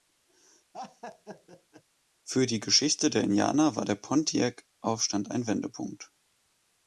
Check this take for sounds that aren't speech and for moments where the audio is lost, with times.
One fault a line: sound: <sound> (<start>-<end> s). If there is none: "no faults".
sound: laugh (0.7-1.8 s)